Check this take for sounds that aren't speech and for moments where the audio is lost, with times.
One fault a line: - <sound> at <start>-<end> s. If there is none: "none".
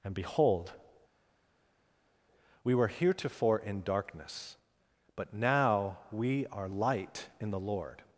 none